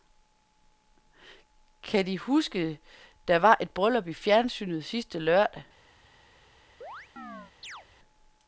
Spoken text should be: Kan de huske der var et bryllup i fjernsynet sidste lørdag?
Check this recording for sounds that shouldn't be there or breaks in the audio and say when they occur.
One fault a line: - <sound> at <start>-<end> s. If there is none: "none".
- chirp at 6.8-7.9 s